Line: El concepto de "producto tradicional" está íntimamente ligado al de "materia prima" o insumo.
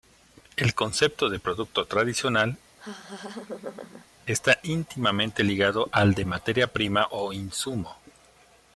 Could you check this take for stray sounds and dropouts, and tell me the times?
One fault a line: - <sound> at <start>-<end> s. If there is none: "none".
- laugh at 2.8-4.1 s